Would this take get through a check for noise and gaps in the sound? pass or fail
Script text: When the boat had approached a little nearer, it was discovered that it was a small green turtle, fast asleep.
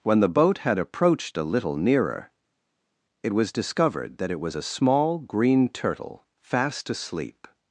pass